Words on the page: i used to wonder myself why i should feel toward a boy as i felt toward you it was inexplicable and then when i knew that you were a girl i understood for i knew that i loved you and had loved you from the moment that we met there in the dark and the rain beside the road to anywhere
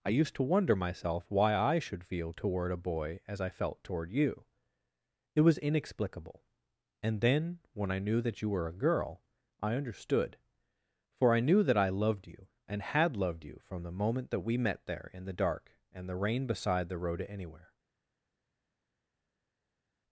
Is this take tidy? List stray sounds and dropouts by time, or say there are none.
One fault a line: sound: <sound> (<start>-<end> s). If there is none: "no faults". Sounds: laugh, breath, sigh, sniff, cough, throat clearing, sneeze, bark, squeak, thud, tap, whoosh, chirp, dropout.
no faults